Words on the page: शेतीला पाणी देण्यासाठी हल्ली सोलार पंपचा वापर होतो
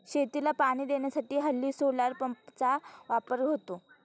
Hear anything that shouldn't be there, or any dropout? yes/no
no